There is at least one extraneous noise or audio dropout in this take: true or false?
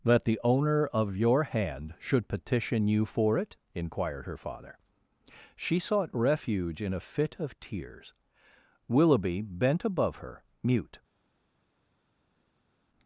false